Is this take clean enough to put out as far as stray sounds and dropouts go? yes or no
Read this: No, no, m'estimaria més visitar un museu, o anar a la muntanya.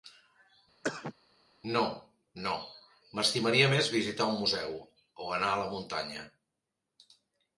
no